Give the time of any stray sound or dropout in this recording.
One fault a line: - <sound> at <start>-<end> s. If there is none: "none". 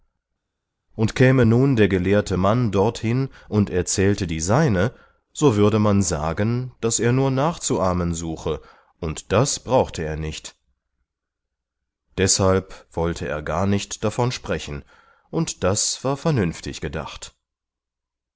none